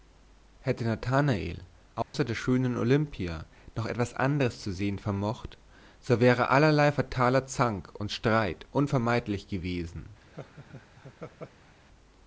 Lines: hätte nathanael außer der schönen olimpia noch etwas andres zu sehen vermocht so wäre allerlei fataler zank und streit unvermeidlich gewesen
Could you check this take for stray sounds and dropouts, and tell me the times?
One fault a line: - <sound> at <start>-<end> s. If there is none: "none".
- dropout at 2.0-2.1 s
- laugh at 10.2-11.7 s